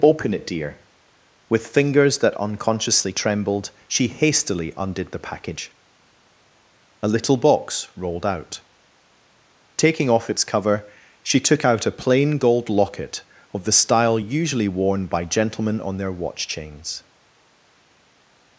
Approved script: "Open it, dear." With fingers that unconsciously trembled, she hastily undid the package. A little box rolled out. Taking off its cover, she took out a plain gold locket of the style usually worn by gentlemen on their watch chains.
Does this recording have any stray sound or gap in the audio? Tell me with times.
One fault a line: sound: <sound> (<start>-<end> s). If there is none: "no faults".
no faults